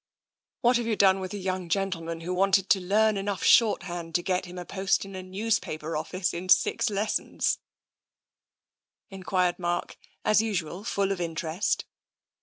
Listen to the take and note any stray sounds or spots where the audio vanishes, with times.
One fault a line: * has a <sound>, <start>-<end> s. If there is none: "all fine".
all fine